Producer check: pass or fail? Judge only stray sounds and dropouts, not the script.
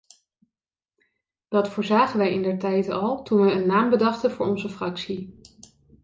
pass